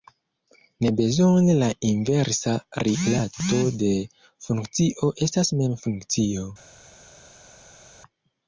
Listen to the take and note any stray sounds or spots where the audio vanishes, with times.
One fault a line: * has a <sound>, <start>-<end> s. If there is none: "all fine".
all fine